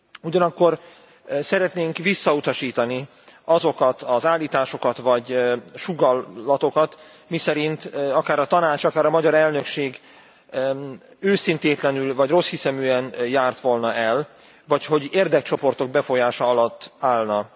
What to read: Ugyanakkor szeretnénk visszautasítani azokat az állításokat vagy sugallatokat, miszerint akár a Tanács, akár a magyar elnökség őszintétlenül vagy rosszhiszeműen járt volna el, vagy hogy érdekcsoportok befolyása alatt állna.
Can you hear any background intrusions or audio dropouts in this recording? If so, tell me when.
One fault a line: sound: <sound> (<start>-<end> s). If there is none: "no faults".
no faults